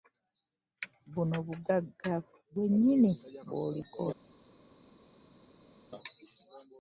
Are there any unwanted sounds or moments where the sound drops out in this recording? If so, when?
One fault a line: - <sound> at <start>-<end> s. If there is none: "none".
none